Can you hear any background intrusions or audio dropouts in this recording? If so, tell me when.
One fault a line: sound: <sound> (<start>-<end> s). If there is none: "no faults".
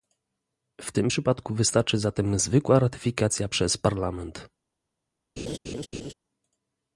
sound: laugh (5.4-6.1 s)